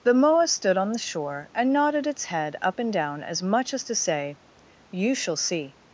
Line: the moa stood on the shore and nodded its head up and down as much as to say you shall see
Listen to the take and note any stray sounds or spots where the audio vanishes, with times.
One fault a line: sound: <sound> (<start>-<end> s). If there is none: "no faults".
no faults